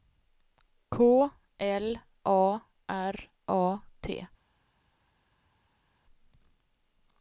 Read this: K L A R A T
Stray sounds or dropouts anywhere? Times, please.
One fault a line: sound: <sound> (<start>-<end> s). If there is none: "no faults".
no faults